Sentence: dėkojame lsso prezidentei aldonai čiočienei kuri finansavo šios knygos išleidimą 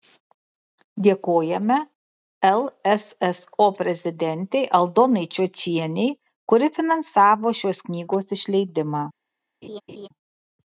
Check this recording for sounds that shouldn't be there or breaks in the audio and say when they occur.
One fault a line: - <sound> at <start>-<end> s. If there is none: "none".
- laugh at 9.6-10.1 s